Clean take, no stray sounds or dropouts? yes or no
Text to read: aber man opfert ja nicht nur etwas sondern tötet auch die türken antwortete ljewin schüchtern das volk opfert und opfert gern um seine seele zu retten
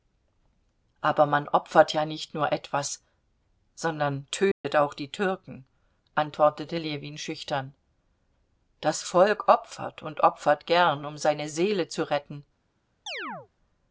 no